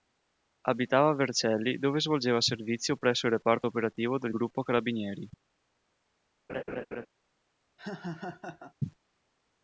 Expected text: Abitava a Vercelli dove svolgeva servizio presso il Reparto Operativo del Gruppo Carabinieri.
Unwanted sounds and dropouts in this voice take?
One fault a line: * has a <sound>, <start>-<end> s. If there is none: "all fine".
* has a laugh, 6.5-7.1 s
* has a laugh, 7.8-8.7 s